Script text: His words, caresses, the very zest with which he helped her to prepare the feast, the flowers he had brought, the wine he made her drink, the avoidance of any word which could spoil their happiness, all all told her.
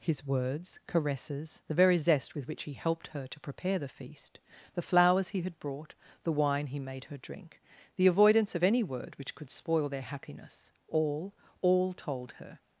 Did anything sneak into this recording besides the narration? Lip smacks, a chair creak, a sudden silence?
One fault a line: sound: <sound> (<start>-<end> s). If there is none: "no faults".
no faults